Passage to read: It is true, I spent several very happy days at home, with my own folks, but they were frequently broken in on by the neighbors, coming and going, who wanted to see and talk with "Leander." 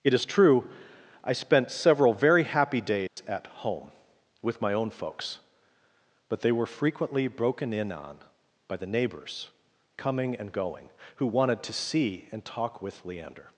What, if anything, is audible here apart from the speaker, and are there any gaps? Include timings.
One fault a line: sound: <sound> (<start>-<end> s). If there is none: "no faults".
sound: dropout (3.1-3.2 s)